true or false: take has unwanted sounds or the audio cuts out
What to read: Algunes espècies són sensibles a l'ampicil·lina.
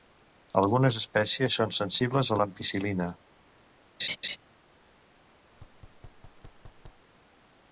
true